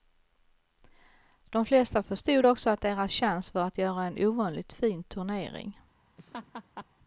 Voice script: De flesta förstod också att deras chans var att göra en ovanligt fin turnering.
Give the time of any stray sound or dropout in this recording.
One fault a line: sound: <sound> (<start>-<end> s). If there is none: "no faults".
sound: laugh (6.2-6.9 s)